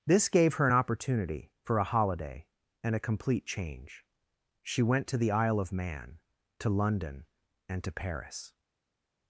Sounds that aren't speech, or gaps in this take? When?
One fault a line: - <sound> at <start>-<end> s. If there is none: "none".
none